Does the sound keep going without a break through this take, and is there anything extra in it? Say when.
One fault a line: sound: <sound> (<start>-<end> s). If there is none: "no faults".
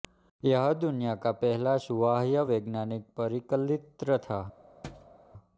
sound: thud (4.8-5.1 s)